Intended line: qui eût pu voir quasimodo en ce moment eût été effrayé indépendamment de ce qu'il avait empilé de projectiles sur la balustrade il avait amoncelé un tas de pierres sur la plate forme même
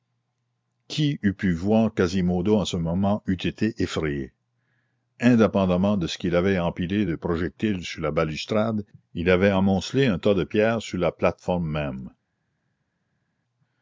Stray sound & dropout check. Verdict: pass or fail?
pass